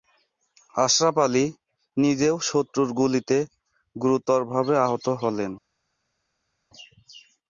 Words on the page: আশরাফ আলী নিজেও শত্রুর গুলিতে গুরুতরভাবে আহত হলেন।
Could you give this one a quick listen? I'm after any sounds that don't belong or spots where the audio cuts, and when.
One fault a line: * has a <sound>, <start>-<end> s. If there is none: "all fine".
all fine